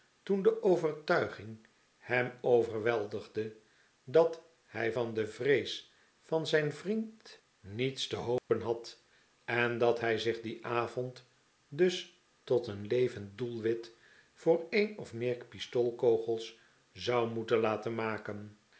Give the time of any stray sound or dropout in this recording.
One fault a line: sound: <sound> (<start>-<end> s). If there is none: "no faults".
sound: dropout (8.4-8.5 s)